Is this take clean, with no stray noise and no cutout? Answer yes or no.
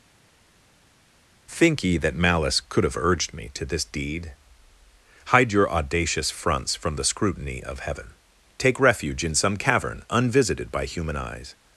yes